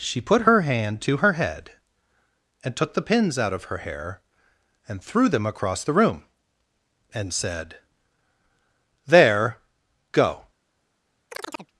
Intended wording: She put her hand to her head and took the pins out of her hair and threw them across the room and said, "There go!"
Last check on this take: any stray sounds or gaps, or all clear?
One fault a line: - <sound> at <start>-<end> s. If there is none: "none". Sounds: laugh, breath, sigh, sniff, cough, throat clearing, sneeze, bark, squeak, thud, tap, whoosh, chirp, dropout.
- chirp at 11.3-11.7 s